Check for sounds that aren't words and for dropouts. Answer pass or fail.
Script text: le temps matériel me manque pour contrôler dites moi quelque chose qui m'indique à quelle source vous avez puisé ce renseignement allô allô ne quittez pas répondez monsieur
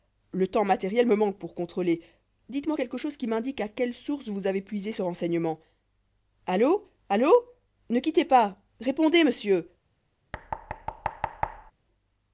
fail